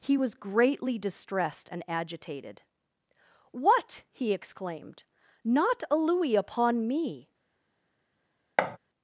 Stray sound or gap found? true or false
true